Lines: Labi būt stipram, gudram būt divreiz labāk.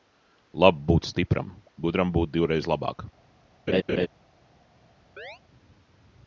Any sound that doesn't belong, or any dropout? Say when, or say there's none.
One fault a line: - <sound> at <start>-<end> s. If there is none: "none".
- laugh at 3.7-4.1 s
- chirp at 5.2-5.4 s